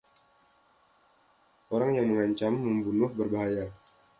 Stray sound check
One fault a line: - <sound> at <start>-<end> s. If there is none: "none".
none